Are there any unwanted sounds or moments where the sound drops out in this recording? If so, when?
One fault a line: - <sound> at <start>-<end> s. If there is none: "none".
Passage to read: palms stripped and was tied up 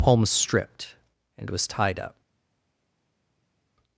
none